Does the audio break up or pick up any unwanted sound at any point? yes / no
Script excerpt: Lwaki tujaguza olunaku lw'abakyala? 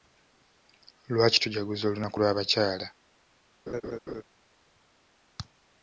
yes